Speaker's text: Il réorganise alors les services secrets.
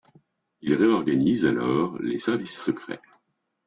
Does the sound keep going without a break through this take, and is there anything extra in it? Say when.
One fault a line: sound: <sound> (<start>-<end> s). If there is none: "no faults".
no faults